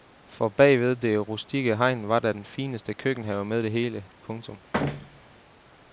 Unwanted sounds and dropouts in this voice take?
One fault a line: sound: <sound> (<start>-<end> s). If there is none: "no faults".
sound: thud (4.7-5.4 s)